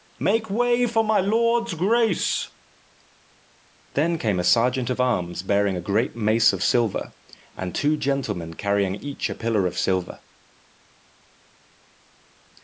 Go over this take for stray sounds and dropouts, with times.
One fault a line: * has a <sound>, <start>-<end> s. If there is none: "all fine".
all fine